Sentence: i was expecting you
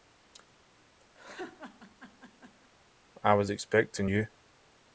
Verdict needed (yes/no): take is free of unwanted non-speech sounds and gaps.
no